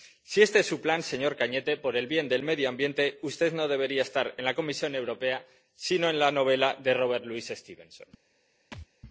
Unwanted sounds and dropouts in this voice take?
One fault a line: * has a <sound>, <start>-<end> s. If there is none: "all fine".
* has a thud, 8.7-8.9 s